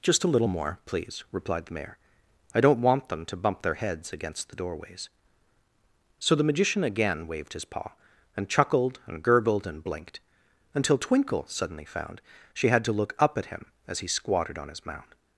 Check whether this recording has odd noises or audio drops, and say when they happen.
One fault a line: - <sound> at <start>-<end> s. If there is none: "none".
none